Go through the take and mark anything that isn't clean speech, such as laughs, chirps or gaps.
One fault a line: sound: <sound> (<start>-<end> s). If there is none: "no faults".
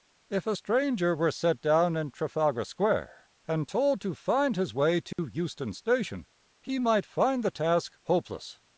sound: dropout (5.1-5.2 s)